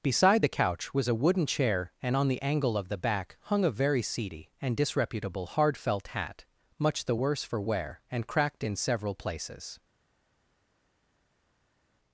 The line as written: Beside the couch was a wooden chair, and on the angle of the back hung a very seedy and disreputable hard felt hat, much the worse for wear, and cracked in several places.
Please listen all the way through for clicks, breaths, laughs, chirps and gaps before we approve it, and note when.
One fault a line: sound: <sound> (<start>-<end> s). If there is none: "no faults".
no faults